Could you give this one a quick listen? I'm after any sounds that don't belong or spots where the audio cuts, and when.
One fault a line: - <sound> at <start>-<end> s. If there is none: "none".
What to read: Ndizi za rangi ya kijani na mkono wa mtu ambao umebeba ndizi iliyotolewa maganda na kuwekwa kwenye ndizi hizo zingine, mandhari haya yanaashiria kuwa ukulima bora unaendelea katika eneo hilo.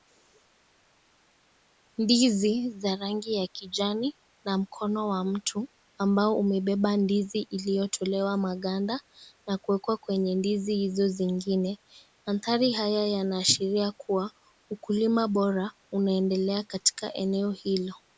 none